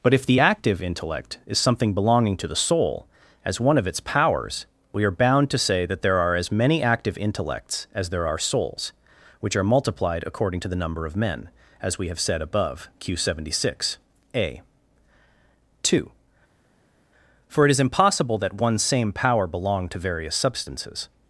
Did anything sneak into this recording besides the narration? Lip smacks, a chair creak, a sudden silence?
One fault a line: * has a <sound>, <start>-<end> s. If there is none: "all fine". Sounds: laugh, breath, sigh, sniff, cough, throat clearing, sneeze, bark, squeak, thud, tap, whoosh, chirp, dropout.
all fine